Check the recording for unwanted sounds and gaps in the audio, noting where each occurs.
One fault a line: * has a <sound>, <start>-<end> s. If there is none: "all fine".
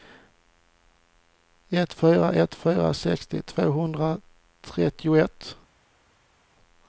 all fine